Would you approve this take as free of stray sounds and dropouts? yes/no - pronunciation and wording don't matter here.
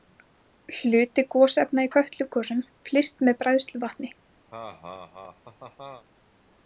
no